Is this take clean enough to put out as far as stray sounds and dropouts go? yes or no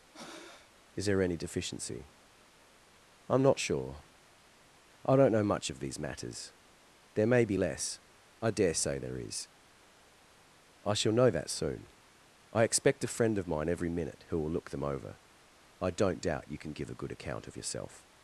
no